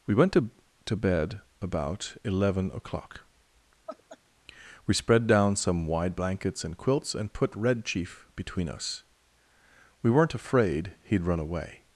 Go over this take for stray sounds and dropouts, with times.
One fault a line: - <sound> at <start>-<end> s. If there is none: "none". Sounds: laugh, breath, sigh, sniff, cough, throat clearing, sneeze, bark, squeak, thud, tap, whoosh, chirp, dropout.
- laugh at 3.9-4.2 s